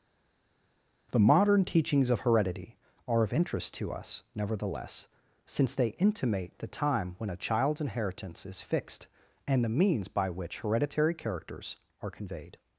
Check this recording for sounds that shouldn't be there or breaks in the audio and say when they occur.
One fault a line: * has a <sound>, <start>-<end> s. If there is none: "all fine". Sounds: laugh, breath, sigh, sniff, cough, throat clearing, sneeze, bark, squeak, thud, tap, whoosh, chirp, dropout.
all fine